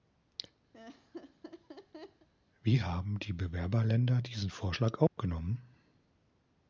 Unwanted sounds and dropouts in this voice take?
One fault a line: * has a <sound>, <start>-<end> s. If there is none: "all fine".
* has a laugh, 0.7-2.3 s
* has a dropout, 5.1-5.2 s